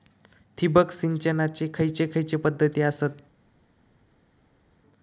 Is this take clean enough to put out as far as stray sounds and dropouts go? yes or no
yes